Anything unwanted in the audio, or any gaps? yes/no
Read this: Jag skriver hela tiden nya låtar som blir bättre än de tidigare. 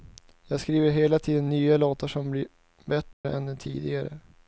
yes